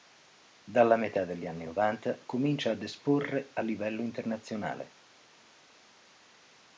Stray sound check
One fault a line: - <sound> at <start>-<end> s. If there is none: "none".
none